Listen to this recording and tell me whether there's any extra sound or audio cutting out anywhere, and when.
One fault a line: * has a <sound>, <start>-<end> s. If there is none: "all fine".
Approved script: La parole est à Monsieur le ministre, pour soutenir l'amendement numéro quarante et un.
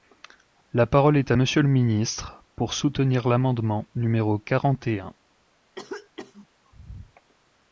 * has a cough, 5.7-6.5 s